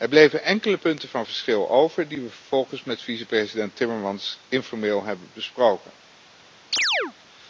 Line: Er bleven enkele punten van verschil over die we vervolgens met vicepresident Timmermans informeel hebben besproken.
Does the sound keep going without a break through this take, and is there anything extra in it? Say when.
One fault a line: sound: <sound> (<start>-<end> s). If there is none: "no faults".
sound: chirp (6.7-7.1 s)